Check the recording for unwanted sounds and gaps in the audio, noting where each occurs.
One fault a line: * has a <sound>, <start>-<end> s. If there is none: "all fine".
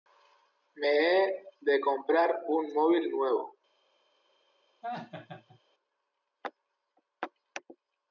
* has a laugh, 4.8-5.6 s